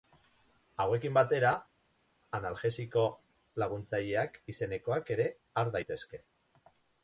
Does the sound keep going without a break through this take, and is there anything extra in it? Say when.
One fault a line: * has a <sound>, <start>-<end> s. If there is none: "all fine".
all fine